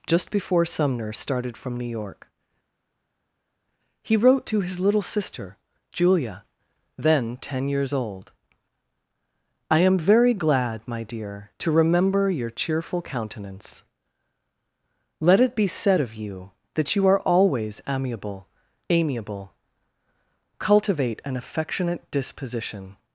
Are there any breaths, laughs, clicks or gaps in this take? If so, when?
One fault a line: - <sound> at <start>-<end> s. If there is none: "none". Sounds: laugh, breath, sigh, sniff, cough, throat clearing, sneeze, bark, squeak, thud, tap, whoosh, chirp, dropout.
none